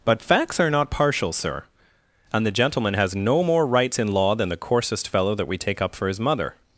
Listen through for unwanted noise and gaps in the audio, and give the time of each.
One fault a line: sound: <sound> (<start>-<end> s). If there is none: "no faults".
no faults